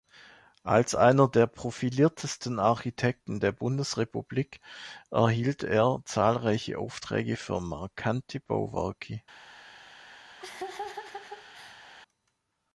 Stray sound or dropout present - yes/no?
yes